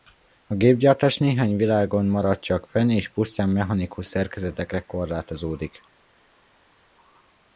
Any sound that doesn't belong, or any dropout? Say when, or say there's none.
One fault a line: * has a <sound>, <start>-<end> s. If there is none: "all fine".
all fine